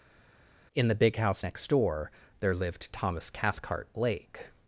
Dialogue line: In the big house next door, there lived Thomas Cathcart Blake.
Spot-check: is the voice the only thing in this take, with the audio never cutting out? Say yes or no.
yes